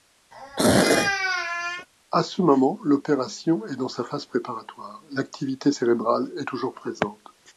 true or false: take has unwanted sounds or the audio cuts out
true